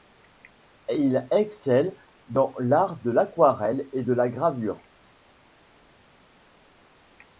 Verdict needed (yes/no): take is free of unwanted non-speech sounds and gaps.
yes